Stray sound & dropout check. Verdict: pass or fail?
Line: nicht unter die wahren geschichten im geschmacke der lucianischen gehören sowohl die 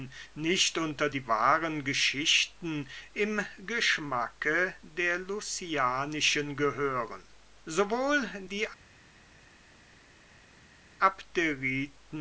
pass